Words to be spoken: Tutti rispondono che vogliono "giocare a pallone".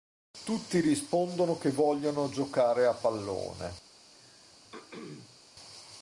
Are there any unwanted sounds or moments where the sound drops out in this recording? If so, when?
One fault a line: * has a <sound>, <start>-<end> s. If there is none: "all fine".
* has a throat clearing, 4.1-5.4 s